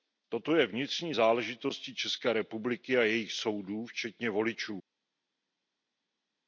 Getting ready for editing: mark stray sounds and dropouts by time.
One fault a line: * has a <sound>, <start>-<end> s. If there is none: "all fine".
all fine